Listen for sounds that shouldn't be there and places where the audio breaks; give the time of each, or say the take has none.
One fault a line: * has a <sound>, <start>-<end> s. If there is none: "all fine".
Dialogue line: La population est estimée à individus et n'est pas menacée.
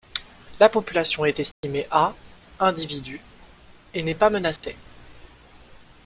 * has a dropout, 1.5-1.6 s
* has a dropout, 4.6-4.6 s